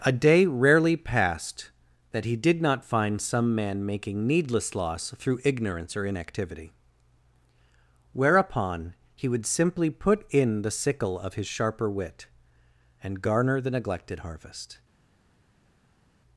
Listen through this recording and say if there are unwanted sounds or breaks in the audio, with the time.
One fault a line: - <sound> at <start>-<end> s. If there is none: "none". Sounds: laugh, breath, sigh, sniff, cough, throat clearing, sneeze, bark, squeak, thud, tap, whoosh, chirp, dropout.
none